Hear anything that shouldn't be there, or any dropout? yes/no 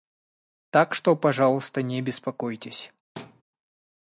yes